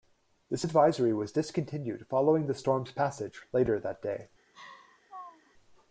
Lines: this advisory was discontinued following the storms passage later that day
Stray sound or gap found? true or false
true